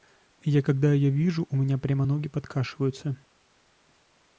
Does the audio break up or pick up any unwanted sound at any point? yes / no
no